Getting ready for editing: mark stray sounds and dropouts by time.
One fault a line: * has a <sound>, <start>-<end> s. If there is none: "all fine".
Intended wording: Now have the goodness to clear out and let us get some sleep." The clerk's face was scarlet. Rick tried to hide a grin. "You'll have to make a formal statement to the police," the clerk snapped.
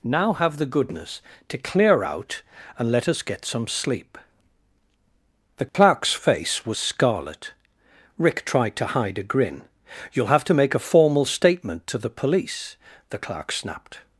* has a dropout, 5.7-5.7 s